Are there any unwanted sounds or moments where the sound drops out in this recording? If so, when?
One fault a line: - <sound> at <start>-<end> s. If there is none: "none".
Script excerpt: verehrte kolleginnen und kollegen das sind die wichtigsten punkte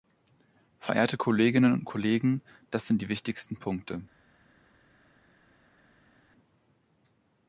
none